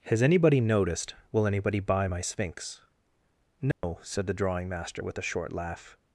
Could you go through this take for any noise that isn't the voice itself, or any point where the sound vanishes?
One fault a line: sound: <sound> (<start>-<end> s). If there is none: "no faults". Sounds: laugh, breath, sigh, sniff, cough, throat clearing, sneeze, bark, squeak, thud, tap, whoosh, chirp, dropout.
sound: dropout (3.7-3.8 s)